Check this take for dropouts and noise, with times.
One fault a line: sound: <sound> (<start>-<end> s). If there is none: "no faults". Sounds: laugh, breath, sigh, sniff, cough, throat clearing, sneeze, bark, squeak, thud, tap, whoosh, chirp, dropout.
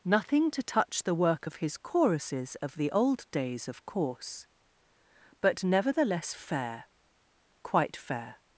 no faults